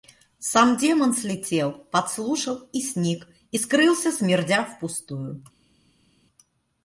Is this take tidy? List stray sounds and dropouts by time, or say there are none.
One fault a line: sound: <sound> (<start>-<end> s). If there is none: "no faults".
no faults